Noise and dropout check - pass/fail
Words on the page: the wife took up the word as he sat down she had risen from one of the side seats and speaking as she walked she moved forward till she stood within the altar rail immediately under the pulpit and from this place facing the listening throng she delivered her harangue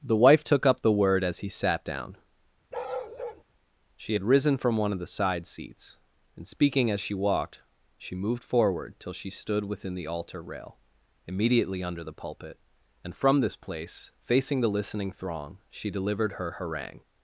fail